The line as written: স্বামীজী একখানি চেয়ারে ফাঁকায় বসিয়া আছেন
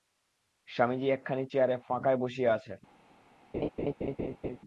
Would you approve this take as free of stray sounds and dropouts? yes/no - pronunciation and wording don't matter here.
no